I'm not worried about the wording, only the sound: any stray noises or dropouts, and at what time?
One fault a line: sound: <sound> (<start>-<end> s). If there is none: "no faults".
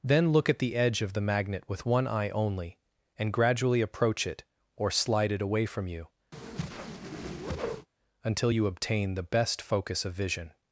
sound: whoosh (6.3-7.9 s)